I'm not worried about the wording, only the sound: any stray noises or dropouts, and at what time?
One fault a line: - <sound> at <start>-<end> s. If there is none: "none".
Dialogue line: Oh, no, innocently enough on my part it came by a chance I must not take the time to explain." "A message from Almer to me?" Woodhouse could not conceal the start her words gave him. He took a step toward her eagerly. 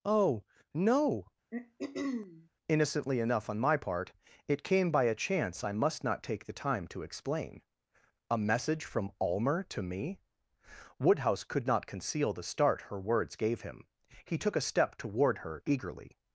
- throat clearing at 1.5-2.5 s